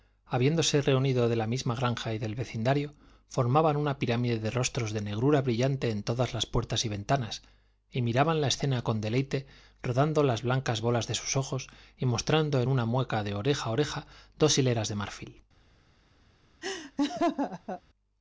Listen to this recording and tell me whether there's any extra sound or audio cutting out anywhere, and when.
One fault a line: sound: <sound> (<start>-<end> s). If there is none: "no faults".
sound: laugh (16.6-17.8 s)